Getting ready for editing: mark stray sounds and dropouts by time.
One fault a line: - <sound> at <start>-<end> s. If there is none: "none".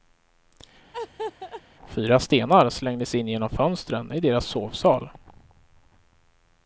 - laugh at 0.9-1.6 s